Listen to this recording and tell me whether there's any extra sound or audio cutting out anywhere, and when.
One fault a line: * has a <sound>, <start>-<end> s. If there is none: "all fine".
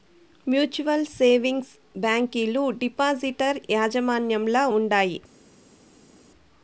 all fine